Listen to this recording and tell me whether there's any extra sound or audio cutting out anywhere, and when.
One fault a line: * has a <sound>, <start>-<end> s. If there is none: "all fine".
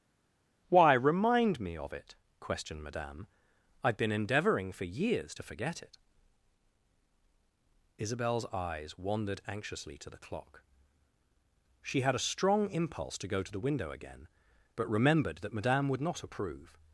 all fine